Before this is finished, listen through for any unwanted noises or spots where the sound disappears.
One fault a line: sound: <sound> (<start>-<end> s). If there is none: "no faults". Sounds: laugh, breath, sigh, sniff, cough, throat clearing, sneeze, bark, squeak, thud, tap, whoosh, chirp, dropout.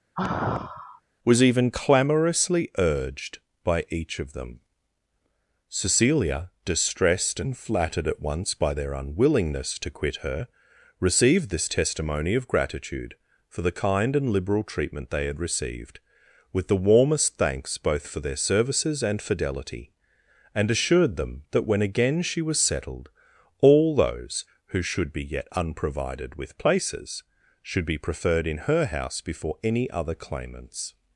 sound: sigh (0.2-1.0 s)